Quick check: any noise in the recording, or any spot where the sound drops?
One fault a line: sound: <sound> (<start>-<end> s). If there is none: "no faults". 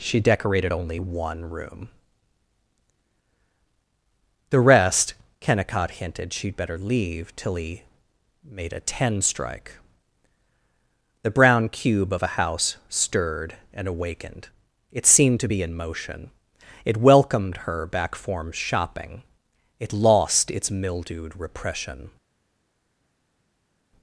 no faults